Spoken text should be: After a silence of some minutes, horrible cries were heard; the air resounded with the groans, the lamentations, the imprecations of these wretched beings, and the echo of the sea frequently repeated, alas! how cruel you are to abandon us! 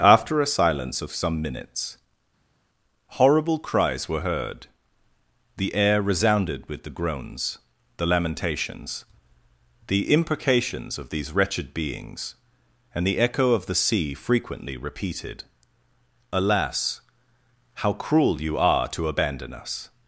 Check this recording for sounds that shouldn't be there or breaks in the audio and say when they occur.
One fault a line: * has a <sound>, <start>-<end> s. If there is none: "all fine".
all fine